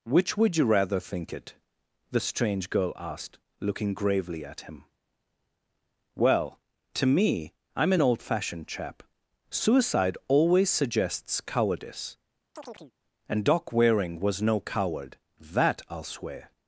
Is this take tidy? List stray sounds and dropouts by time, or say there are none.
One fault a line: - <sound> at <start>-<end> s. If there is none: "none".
- chirp at 12.5-12.9 s